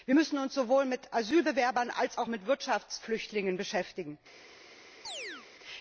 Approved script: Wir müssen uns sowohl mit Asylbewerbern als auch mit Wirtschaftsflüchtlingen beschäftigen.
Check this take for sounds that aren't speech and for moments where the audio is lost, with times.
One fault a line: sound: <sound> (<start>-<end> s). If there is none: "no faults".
sound: chirp (5.0-5.5 s)